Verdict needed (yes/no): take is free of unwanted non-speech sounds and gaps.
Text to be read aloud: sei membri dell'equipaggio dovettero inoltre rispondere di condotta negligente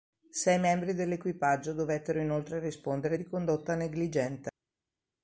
yes